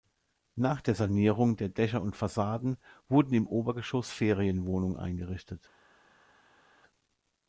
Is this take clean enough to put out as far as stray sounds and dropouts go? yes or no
yes